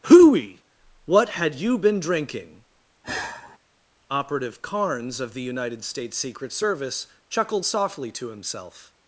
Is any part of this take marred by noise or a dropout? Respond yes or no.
yes